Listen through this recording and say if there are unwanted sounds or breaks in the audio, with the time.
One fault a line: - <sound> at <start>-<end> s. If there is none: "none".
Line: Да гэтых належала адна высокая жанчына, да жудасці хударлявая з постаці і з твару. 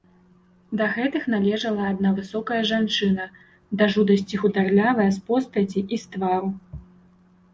none